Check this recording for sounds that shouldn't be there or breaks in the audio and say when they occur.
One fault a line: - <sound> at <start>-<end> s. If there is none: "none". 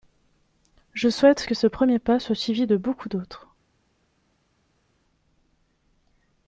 none